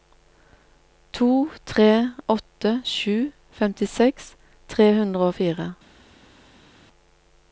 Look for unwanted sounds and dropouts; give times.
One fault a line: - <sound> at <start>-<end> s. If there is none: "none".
none